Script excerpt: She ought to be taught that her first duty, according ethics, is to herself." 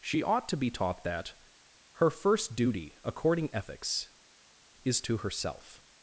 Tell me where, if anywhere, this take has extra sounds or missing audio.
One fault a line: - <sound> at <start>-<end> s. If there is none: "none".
none